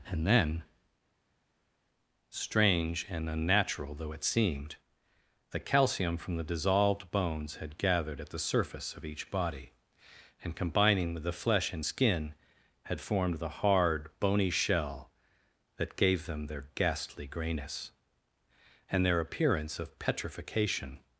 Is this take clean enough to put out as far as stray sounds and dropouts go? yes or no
yes